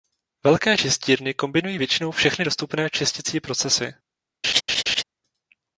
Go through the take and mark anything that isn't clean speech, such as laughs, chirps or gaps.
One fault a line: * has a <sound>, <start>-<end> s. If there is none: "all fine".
* has a laugh, 4.4-5.0 s